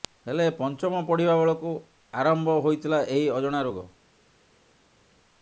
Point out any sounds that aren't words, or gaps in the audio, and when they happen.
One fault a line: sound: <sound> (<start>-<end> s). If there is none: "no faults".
no faults